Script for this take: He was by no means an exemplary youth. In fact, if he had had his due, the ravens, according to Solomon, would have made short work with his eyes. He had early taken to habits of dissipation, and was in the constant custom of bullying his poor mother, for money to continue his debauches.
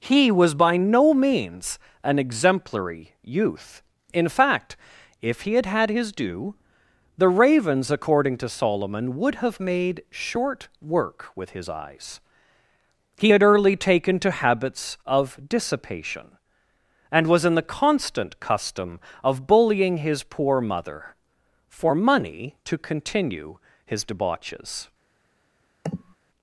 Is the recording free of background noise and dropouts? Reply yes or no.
no